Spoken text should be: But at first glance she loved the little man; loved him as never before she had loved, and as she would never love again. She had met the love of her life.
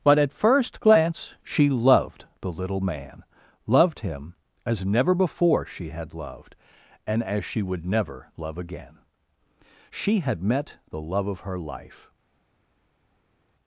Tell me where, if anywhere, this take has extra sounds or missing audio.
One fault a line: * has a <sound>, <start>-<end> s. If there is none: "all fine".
all fine